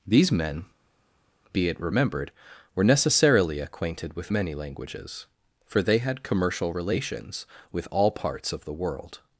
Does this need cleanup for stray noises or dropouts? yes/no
no